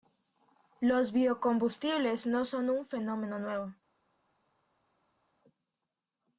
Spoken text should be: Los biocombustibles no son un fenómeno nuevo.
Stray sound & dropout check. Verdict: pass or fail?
pass